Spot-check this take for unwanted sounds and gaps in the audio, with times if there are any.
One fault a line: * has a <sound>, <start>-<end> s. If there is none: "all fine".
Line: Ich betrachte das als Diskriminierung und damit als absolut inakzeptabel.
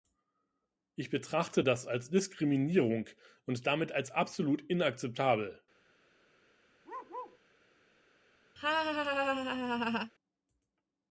* has a bark, 6.8-7.4 s
* has a laugh, 8.6-10.1 s